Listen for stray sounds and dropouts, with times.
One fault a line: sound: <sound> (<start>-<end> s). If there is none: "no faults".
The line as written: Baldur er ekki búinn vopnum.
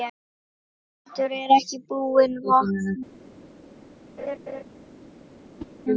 sound: laugh (4.2-4.6 s)
sound: whoosh (5.6-5.7 s)